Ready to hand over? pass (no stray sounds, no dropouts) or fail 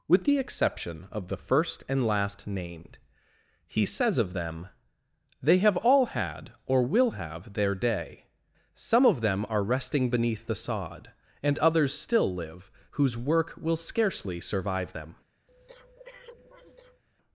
fail